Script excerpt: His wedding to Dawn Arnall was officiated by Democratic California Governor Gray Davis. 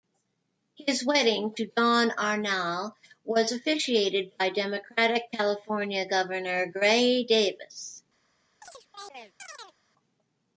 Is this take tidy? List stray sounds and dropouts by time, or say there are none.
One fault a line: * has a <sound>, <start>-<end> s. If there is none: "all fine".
* has a chirp, 8.6-9.8 s